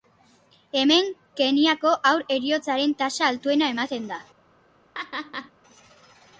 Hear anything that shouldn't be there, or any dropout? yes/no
yes